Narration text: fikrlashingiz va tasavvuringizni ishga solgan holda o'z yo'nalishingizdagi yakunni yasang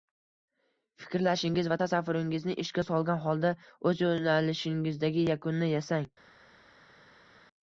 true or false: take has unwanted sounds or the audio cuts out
false